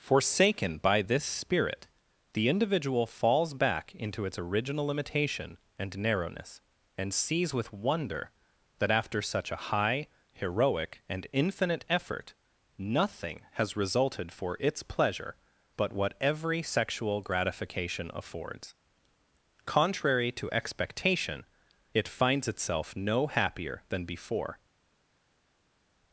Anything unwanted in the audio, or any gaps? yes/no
no